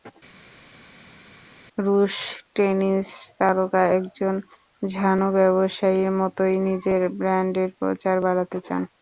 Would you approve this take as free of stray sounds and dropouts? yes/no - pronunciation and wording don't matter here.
yes